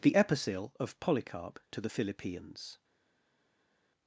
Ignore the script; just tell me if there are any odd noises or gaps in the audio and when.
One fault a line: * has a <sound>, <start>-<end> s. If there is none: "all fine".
all fine